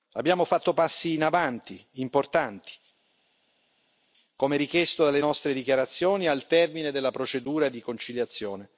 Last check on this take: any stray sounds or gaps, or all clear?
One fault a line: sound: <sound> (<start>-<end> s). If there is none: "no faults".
no faults